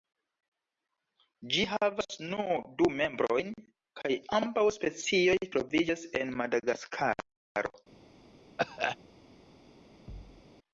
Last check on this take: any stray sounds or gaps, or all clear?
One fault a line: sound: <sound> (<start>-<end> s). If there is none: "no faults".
sound: cough (8.6-9.0 s)
sound: thud (10.1-10.4 s)